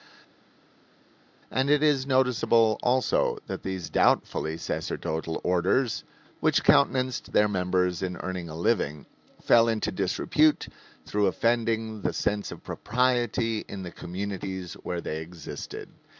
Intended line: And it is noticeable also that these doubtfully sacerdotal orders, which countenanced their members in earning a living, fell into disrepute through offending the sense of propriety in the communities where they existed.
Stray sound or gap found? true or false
false